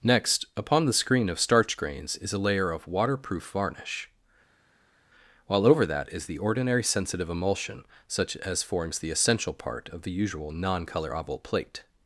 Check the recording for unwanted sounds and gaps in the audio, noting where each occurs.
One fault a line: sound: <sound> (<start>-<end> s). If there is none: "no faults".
no faults